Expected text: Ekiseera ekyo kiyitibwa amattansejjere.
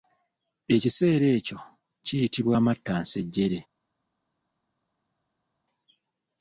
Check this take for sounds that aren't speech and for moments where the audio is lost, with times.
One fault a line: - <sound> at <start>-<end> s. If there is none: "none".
none